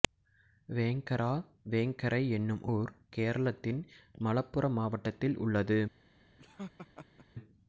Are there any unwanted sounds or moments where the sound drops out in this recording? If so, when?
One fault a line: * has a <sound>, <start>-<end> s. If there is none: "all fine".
* has a laugh, 6.4-7.3 s